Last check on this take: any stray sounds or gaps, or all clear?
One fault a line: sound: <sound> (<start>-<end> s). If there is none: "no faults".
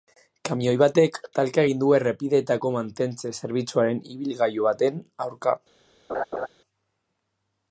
sound: laugh (6.1-6.5 s)